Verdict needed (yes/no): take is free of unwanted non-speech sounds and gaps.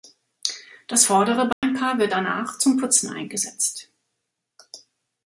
no